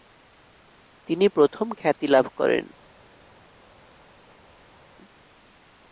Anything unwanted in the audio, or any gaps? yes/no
no